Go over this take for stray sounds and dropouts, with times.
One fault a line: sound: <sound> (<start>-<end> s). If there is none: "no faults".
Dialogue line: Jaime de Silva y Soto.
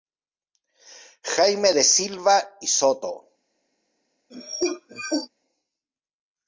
sound: cough (4.3-5.3 s)